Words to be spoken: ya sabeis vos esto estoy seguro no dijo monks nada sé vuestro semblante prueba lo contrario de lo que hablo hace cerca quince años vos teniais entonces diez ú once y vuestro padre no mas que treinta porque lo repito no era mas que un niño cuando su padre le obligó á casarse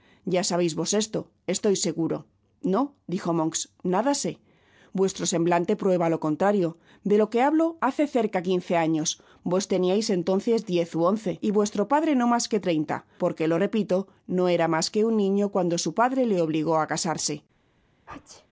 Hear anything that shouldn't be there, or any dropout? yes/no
yes